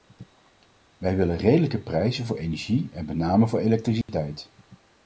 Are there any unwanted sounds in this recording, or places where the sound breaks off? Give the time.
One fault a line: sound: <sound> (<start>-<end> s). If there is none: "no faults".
sound: dropout (4.0-4.1 s)